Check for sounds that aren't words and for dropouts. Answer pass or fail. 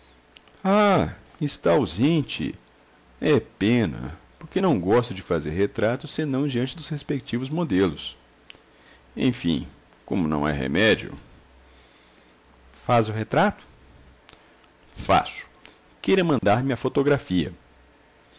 fail